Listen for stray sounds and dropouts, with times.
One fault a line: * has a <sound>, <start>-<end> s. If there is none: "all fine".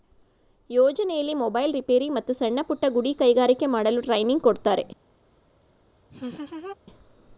* has a laugh, 6.1-6.8 s